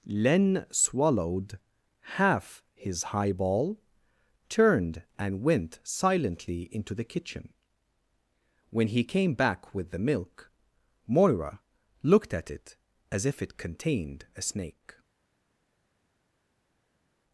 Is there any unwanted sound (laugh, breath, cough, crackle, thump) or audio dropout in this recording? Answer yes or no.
no